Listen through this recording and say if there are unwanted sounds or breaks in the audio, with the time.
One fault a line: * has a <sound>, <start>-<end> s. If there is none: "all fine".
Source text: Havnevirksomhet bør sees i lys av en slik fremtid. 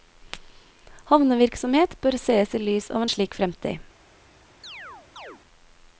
* has a chirp, 4.6-5.4 s